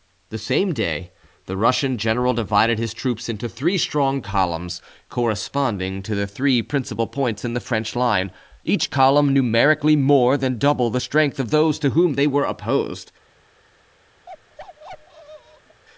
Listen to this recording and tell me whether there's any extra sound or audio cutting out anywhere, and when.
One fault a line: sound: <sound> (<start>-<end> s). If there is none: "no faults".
sound: bark (14.3-15.8 s)